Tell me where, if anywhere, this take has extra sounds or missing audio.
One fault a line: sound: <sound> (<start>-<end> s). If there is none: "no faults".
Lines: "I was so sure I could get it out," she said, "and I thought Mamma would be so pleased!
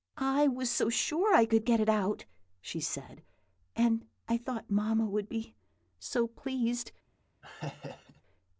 sound: laugh (7.4-8.2 s)